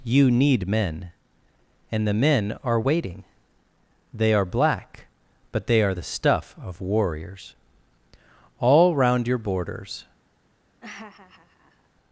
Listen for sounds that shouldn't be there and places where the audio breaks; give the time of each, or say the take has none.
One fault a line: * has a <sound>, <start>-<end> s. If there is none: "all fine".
* has a laugh, 10.8-11.9 s